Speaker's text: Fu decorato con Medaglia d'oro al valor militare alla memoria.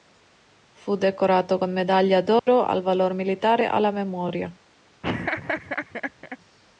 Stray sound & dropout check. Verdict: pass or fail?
fail